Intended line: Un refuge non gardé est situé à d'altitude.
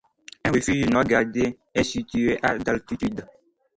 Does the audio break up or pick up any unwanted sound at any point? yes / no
no